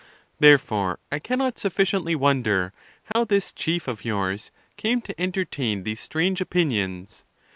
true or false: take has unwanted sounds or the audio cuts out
true